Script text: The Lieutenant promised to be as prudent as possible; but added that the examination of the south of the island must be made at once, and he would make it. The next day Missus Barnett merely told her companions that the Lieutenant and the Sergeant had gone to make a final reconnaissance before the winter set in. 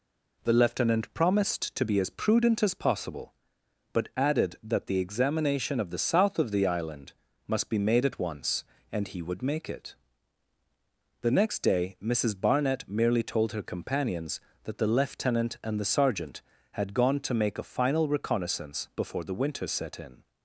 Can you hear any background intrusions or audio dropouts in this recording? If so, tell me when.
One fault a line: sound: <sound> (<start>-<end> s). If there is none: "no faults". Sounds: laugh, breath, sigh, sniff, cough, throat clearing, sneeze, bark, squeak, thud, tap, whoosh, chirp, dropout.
no faults